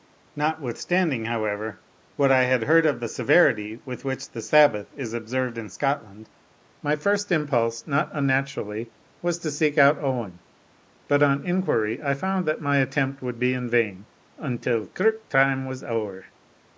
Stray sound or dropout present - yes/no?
no